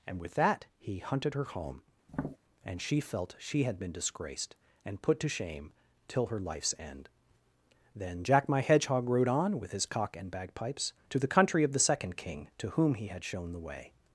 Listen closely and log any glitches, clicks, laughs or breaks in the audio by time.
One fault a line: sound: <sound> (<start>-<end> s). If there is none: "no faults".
sound: tap (2.1-2.4 s)